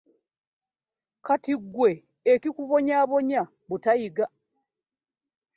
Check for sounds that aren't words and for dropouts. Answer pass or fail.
pass